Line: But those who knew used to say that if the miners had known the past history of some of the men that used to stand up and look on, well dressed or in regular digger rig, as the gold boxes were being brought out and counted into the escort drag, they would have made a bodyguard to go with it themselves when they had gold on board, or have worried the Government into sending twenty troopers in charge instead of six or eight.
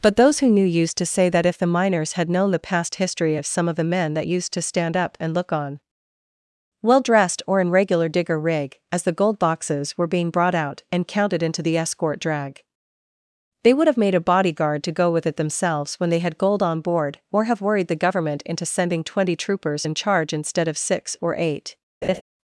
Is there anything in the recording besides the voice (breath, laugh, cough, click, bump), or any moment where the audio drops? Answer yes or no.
yes